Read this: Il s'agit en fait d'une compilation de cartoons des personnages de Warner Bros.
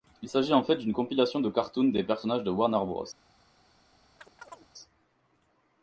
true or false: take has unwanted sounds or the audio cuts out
true